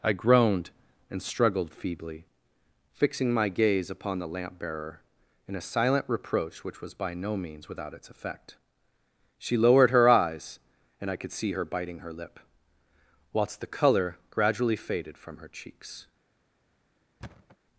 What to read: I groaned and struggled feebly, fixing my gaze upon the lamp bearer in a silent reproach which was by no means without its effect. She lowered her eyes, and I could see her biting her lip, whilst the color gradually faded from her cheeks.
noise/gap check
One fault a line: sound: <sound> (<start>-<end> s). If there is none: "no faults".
sound: thud (17.2-17.6 s)